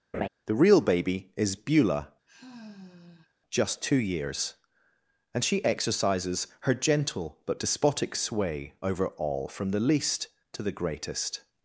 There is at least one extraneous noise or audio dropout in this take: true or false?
true